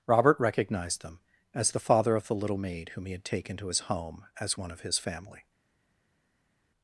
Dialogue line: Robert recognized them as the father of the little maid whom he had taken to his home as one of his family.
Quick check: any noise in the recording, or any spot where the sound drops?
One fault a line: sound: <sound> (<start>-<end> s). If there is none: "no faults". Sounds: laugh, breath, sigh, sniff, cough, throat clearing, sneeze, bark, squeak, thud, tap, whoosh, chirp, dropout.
no faults